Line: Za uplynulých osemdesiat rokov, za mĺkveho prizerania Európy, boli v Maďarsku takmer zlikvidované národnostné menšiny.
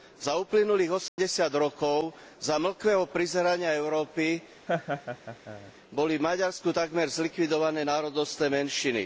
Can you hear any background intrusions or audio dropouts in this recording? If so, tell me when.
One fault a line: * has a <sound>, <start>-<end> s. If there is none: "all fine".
* has a dropout, 1.1-1.2 s
* has a laugh, 4.7-5.7 s